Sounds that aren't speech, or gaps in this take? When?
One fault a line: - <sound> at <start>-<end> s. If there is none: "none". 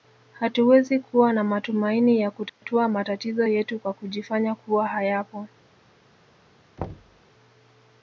- dropout at 2.5-2.6 s
- thud at 6.8-7.2 s